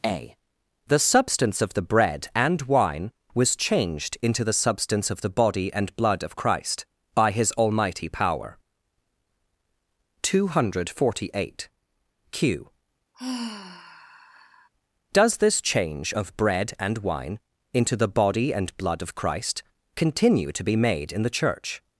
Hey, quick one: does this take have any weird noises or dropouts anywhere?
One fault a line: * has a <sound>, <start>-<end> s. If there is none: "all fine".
* has a sigh, 13.1-14.7 s